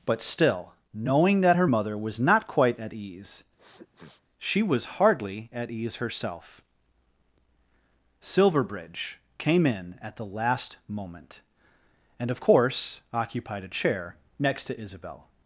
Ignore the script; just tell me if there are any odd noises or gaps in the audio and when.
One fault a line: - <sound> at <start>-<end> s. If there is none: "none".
- sniff at 3.6-4.2 s